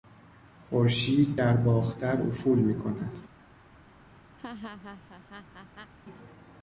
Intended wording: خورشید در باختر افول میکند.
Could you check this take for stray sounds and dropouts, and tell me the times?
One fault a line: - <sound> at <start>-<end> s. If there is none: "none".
- laugh at 4.4-5.9 s